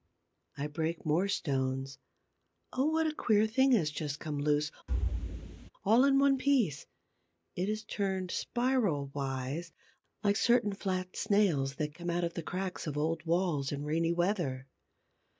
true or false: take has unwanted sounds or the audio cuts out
true